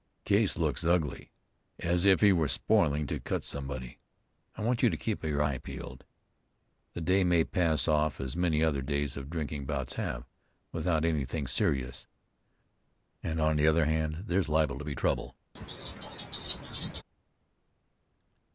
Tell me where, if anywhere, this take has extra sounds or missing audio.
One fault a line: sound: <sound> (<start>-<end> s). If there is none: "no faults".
sound: laugh (15.6-17.0 s)